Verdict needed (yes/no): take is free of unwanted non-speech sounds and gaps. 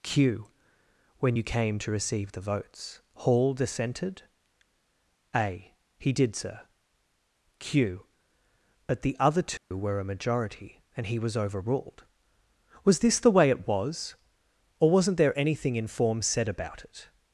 no